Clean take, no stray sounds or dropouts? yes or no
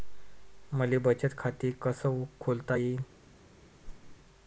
no